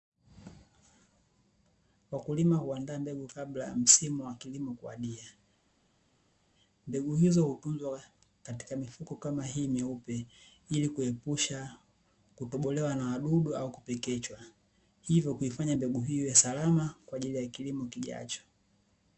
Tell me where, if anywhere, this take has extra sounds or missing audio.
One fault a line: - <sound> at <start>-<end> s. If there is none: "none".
none